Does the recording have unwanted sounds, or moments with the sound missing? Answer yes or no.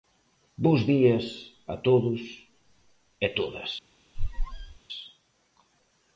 yes